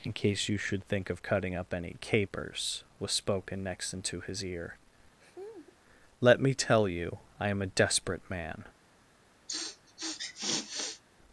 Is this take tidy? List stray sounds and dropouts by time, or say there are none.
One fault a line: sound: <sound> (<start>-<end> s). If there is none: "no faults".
sound: laugh (5.2-5.8 s)
sound: sniff (9.5-11.0 s)